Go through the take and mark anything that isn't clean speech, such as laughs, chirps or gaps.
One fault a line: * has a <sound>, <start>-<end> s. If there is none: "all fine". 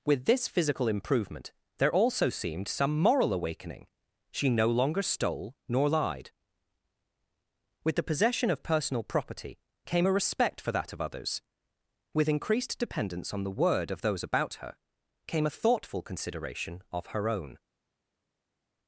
all fine